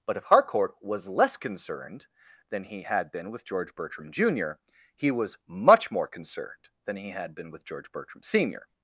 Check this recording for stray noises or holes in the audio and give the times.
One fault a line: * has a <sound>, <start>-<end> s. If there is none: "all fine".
all fine